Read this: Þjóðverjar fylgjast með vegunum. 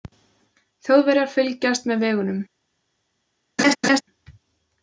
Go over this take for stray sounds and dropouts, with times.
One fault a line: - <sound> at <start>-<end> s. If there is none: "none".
- laugh at 3.6-4.0 s